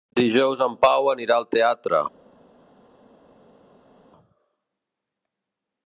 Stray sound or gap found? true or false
false